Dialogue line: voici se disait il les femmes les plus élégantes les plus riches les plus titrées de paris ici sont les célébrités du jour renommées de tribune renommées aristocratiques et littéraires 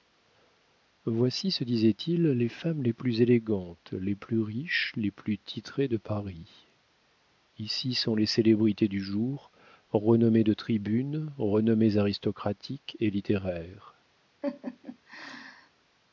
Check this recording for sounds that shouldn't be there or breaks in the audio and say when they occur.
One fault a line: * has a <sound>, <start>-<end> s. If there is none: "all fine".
* has a laugh, 14.4-15.7 s